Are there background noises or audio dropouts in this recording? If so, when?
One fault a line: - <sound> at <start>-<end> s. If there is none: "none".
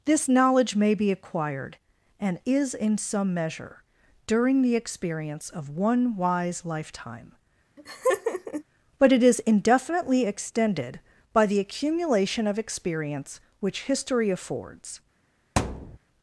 - laugh at 7.8-8.6 s
- thud at 15.6-16.0 s